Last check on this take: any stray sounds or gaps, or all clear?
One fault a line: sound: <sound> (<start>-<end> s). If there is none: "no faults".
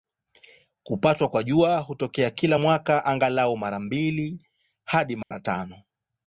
sound: dropout (5.2-5.3 s)